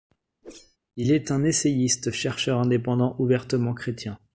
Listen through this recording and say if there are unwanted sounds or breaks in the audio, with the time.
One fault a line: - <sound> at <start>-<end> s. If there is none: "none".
- whoosh at 0.4-0.8 s